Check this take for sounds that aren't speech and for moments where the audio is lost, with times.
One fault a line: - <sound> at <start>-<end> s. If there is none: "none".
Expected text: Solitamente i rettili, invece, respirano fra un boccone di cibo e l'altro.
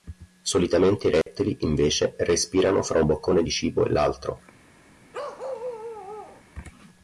- dropout at 1.2-1.3 s
- bark at 5.1-6.4 s